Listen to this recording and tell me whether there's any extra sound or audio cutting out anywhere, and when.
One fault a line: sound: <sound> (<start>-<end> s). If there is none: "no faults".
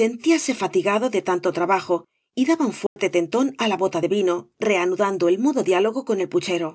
sound: dropout (2.9-3.0 s)